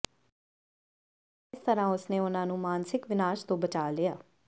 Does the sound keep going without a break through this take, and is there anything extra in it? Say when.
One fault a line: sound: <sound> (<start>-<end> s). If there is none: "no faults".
no faults